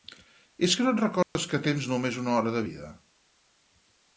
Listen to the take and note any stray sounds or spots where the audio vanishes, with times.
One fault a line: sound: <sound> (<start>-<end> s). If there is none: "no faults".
sound: dropout (1.2-1.4 s)